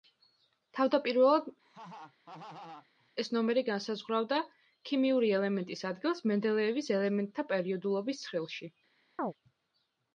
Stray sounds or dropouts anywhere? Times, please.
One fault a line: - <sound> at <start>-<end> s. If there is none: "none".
- laugh at 1.6-3.1 s
- chirp at 9.2-9.3 s